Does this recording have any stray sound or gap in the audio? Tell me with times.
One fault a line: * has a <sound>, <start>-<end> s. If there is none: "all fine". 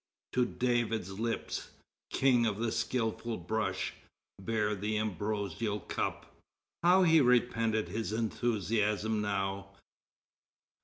all fine